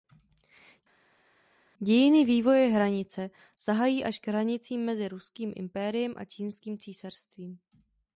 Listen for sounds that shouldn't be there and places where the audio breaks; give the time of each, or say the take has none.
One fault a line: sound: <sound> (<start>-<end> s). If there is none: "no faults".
no faults